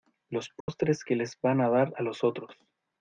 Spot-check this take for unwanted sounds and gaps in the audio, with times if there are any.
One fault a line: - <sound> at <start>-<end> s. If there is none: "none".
- dropout at 0.6-0.7 s